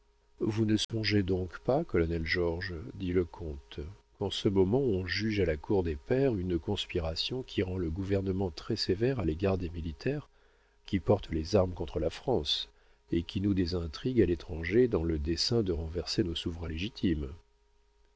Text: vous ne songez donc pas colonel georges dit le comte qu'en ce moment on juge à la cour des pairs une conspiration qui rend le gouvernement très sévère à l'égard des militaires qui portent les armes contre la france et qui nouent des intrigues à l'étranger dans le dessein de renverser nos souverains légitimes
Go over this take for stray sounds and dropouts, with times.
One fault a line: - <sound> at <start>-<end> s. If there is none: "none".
- dropout at 0.8-0.9 s